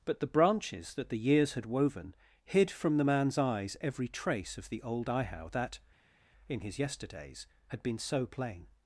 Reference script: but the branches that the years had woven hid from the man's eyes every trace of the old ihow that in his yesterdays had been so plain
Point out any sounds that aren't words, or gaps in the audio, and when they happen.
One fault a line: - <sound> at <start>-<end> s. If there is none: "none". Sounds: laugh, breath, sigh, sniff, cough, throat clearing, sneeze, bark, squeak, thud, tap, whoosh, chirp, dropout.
none